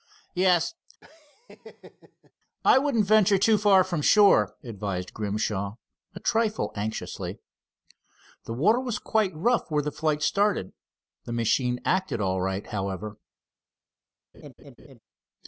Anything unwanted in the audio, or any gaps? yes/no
yes